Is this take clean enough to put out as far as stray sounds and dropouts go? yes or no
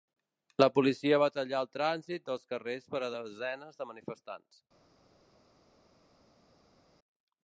yes